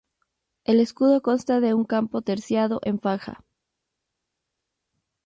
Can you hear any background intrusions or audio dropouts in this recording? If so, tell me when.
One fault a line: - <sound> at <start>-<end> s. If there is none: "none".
none